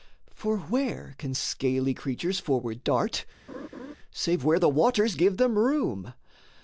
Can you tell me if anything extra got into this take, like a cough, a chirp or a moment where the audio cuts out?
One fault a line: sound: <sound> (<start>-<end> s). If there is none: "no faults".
sound: laugh (3.5-3.9 s)